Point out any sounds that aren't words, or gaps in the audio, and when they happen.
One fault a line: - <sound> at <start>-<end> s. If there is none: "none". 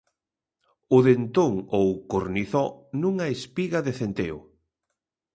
none